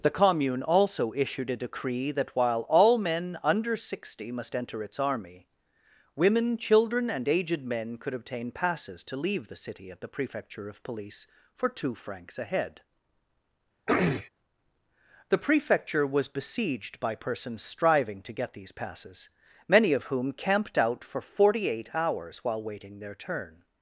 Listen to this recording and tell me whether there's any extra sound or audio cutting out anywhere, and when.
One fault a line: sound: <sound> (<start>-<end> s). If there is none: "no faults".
sound: throat clearing (13.9-14.3 s)